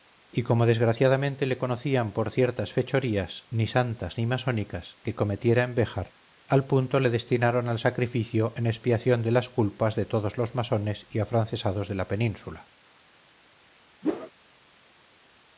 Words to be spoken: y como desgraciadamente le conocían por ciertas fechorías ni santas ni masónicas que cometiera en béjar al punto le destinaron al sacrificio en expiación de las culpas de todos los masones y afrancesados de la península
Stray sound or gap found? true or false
true